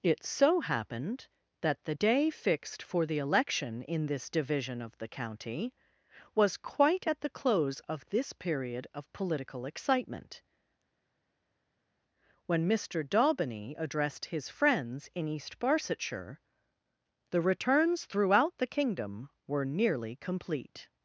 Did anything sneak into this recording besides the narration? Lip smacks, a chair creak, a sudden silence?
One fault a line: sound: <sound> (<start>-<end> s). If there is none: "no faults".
no faults